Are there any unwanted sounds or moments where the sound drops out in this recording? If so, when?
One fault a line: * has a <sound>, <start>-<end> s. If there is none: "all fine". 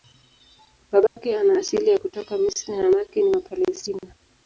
* has a dropout, 1.1-1.2 s